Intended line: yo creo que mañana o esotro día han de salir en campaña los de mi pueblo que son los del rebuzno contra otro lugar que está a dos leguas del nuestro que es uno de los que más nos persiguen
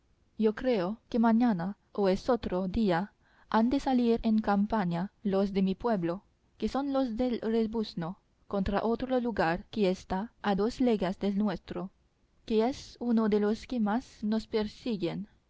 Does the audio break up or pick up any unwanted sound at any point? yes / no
no